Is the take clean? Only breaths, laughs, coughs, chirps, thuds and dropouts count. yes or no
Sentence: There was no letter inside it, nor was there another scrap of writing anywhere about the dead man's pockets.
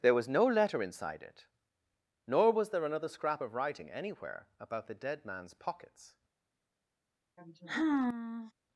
no